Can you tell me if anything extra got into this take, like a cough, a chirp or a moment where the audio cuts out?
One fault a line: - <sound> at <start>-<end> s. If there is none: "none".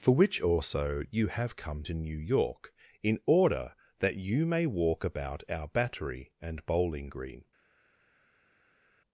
none